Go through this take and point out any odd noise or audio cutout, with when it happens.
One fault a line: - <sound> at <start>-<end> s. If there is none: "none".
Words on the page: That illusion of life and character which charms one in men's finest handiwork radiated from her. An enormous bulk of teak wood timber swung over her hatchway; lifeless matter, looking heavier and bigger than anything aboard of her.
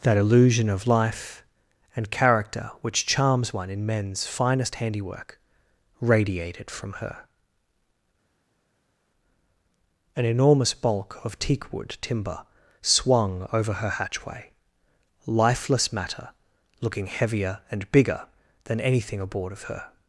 none